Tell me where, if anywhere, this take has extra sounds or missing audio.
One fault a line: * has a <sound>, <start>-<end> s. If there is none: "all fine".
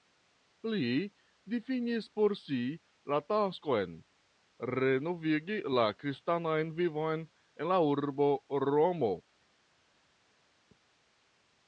all fine